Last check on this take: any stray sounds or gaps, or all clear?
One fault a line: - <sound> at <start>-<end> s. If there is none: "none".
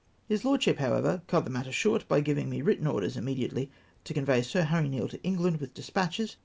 none